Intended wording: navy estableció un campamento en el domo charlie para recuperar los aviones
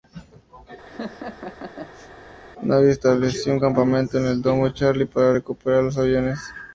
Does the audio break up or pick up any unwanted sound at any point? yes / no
yes